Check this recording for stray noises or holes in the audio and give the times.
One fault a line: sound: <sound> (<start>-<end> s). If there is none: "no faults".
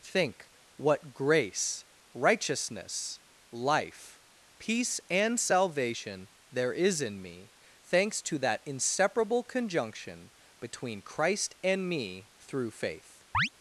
sound: chirp (13.3-13.5 s)